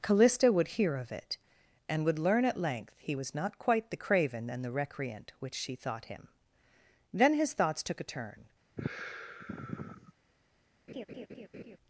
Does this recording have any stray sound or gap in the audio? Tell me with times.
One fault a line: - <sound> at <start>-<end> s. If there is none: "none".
- sigh at 8.8-10.1 s
- laugh at 10.9-11.8 s